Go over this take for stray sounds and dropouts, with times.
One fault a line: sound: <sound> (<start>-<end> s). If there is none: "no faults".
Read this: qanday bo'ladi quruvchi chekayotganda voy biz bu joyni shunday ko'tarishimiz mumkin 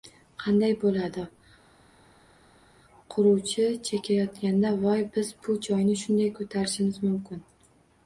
no faults